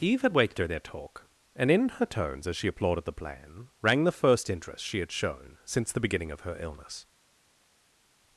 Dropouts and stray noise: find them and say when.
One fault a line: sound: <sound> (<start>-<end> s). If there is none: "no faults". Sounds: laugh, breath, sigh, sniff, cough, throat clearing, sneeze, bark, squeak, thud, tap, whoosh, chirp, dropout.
no faults